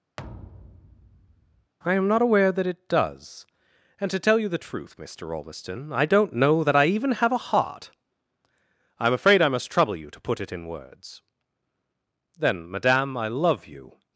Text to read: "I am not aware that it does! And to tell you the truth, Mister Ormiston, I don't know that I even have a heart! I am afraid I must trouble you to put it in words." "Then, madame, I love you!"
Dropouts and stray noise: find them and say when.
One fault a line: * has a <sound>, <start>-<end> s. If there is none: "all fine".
* has a thud, 0.2-1.7 s